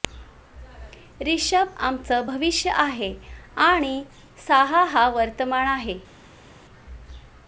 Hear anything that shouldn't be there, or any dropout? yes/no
no